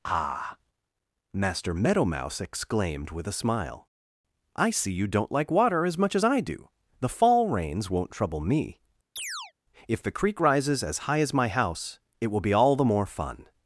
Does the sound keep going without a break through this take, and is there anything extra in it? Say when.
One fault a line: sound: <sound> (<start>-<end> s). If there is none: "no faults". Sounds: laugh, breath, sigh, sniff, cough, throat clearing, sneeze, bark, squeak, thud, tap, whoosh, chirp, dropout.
sound: chirp (9.2-9.5 s)